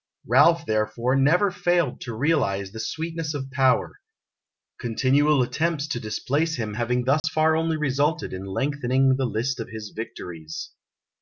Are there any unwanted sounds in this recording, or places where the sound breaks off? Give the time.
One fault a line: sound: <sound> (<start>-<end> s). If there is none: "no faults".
sound: dropout (7.2-7.2 s)